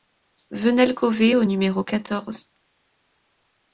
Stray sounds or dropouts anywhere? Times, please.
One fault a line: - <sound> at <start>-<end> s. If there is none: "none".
none